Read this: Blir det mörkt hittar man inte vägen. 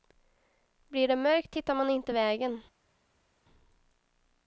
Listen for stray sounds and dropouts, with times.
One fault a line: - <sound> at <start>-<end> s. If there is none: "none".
none